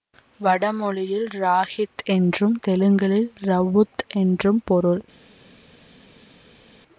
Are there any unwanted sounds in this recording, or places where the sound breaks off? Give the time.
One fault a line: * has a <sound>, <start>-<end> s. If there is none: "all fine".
all fine